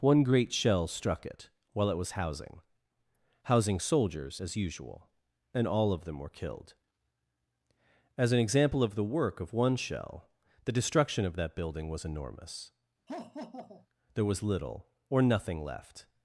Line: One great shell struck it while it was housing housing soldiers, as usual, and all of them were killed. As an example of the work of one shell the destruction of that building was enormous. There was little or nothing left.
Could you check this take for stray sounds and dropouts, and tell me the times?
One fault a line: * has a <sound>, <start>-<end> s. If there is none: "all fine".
* has a laugh, 13.1-13.9 s